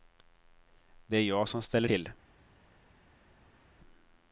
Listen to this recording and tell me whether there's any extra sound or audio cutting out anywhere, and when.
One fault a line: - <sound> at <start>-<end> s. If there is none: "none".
none